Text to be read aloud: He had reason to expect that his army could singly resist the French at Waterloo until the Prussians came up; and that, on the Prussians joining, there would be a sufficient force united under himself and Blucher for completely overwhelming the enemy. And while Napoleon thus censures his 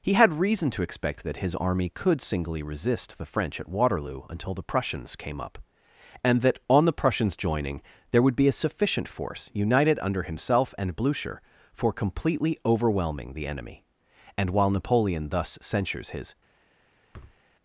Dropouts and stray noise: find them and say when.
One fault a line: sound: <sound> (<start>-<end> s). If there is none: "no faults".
sound: thud (17.1-17.4 s)